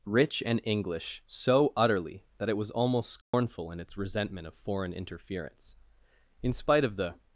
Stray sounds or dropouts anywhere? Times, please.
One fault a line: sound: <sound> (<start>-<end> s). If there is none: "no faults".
sound: dropout (3.2-3.3 s)